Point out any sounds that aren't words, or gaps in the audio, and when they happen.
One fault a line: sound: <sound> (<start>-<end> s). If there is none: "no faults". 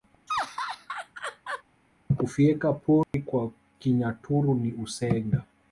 sound: laugh (0.3-1.6 s)
sound: dropout (3.0-3.1 s)